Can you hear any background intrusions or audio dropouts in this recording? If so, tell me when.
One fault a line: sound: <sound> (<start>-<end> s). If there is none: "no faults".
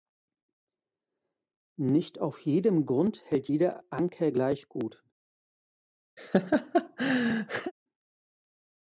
sound: laugh (6.2-7.7 s)